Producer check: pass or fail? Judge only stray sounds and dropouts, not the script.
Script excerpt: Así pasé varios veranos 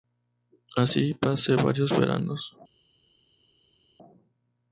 pass